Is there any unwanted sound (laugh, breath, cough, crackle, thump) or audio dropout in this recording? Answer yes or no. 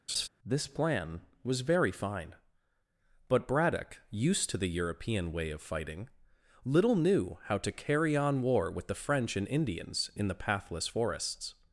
yes